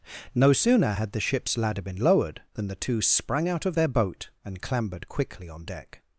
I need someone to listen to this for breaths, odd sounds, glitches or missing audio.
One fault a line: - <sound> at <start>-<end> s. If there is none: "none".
none